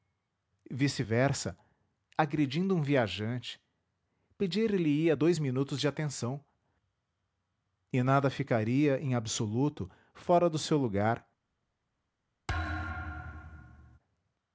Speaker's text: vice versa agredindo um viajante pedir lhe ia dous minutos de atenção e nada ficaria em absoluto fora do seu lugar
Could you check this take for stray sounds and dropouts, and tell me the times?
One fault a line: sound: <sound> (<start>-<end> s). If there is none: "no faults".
sound: thud (12.5-14.0 s)